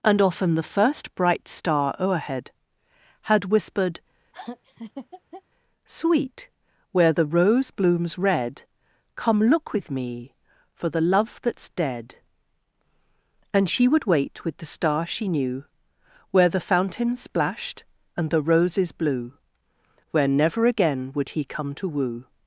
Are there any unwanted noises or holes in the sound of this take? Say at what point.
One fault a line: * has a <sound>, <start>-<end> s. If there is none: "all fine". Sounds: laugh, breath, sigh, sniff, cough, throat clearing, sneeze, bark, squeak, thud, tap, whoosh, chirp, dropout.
* has a laugh, 4.3-5.4 s